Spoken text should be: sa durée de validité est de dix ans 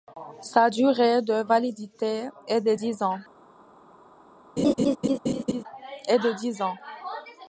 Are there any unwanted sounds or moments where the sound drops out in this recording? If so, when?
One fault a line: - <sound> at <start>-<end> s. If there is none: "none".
- laugh at 4.6-5.6 s